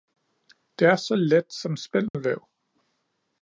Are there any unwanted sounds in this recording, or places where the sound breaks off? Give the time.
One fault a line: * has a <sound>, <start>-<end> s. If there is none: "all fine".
* has a dropout, 2.1-2.1 s